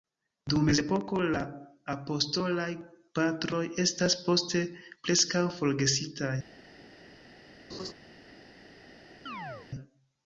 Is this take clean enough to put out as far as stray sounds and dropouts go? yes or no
no